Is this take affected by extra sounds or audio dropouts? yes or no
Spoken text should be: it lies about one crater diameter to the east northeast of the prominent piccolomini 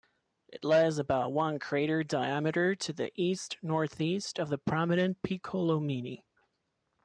no